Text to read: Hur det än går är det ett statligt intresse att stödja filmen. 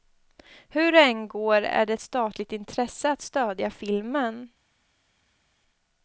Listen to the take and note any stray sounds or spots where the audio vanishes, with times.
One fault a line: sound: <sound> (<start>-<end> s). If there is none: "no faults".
no faults